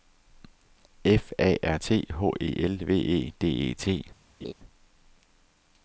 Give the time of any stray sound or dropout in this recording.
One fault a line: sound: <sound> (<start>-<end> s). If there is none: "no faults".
sound: laugh (4.4-4.5 s)